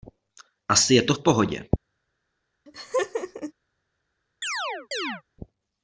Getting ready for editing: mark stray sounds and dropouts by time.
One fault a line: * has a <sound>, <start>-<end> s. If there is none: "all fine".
* has a laugh, 2.7-3.5 s
* has a chirp, 4.4-5.2 s